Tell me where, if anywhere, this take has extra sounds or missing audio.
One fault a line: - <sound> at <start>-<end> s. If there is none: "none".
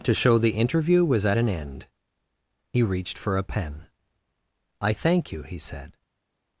none